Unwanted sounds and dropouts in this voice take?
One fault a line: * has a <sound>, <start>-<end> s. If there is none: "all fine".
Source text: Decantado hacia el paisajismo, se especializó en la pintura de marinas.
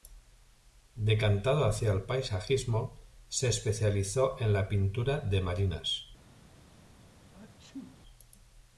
* has a sneeze, 7.3-8.0 s